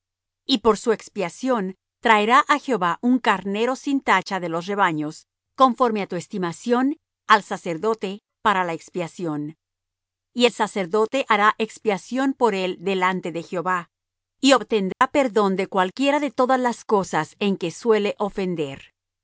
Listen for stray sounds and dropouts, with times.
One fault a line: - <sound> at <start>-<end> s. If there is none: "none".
- dropout at 14.9-15.0 s